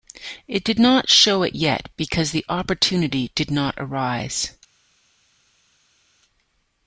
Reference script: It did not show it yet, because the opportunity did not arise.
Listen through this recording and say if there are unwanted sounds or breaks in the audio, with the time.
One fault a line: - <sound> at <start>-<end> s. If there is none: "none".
none